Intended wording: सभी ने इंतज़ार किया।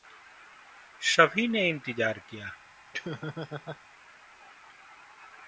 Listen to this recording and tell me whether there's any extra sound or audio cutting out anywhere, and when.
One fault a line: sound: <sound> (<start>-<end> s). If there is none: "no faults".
sound: laugh (2.9-3.8 s)